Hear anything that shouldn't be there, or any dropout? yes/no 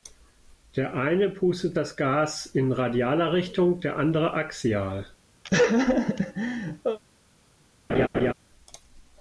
yes